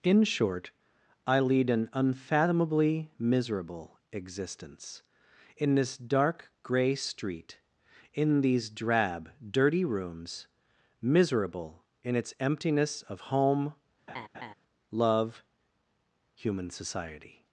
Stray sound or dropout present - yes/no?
yes